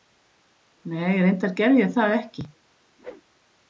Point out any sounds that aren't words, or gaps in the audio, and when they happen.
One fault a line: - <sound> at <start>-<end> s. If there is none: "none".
- whoosh at 3.0-3.2 s